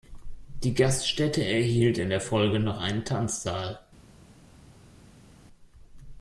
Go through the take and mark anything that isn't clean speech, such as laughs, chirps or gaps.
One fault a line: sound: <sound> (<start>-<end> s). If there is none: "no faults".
no faults